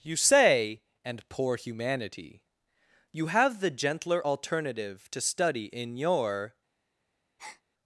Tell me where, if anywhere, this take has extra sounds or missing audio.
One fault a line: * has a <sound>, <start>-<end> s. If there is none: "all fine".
* has a breath, 7.4-7.6 s